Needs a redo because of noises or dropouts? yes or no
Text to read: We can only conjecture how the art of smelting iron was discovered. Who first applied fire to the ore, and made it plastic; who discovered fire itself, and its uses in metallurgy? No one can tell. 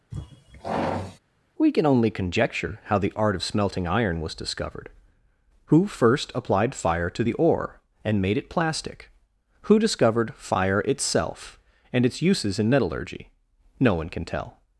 yes